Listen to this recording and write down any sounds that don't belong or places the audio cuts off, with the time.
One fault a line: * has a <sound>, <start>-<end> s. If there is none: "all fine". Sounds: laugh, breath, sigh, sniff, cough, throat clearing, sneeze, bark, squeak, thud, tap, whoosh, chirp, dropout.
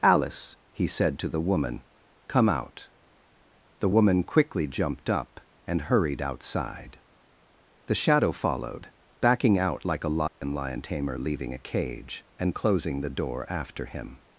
* has a dropout, 10.3-10.4 s